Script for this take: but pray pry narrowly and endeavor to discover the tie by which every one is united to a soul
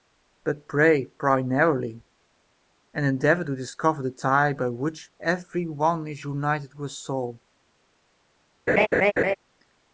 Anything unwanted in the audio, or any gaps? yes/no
yes